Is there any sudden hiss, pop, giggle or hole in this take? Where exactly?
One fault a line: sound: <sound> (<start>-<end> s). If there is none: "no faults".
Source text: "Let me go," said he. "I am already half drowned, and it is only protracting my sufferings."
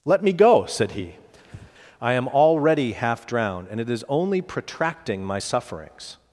sound: breath (1.4-1.7 s)